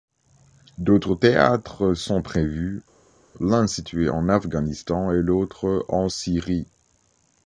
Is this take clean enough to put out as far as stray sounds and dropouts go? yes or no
yes